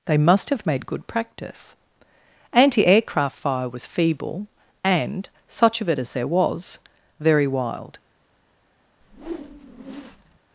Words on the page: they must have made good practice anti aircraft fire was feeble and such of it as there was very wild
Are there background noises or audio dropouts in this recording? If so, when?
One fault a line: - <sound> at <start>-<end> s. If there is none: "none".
- whoosh at 9.0-10.4 s